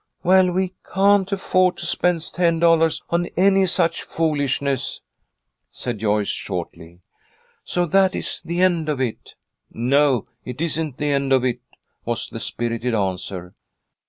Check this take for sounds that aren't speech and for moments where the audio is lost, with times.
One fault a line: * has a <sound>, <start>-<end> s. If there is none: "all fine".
all fine